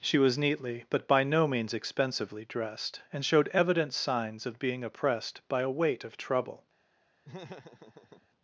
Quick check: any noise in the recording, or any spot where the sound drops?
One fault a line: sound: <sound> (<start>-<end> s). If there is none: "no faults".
sound: laugh (7.2-8.3 s)